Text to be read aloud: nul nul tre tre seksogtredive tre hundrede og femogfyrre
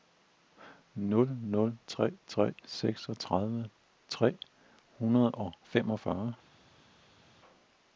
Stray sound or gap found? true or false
false